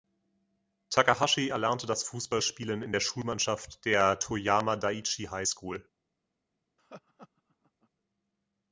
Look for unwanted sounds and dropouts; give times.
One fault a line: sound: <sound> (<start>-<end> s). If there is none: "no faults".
sound: laugh (6.8-7.9 s)